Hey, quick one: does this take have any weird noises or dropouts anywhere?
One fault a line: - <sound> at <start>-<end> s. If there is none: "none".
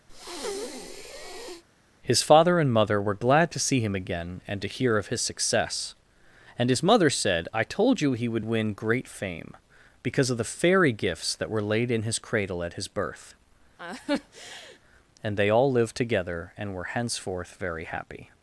- breath at 0.1-1.6 s
- laugh at 13.8-14.8 s